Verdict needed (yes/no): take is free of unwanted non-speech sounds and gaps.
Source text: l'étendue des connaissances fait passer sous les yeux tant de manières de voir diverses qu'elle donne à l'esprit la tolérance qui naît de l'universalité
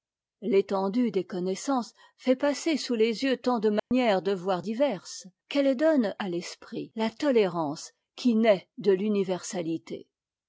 no